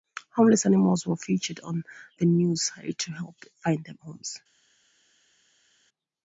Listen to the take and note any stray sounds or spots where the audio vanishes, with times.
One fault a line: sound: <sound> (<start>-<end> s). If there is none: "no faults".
no faults